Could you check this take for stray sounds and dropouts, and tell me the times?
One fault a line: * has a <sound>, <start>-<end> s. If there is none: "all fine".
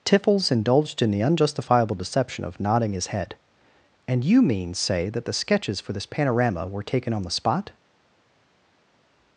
all fine